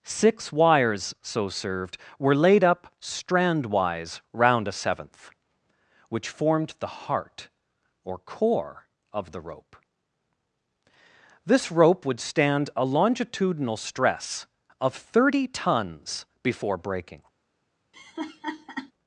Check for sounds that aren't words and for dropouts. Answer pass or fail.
fail